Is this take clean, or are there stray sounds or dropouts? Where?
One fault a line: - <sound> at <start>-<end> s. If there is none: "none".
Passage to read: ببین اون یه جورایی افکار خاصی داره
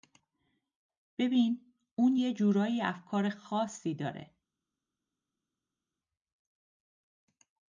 none